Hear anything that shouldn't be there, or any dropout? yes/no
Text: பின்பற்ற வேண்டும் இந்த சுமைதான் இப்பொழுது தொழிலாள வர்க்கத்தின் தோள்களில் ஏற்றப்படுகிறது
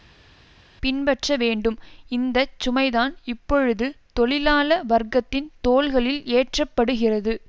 no